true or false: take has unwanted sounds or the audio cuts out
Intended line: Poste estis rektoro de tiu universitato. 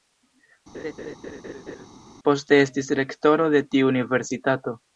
true